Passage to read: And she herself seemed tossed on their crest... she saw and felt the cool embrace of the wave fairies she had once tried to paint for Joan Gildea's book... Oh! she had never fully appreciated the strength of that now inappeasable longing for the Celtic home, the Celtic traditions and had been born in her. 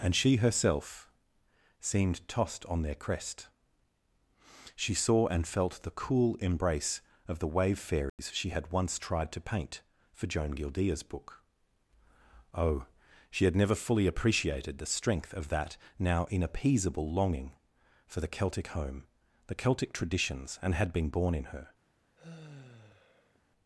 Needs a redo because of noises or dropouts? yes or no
yes